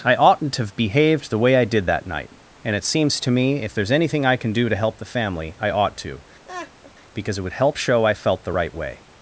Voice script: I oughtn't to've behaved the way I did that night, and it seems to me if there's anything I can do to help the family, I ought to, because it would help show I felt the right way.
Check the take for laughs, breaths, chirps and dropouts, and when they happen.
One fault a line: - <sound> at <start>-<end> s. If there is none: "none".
- laugh at 6.4-6.9 s